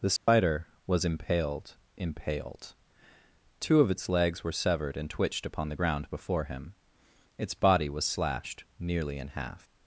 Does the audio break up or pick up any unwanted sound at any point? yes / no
yes